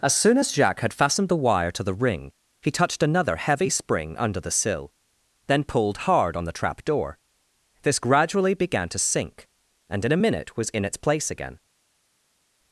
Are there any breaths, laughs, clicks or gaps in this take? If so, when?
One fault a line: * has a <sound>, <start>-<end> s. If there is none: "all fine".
all fine